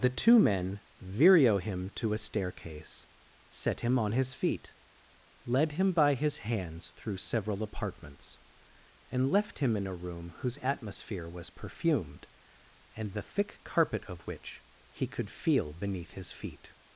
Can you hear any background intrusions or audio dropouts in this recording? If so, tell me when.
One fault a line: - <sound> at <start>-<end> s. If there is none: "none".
none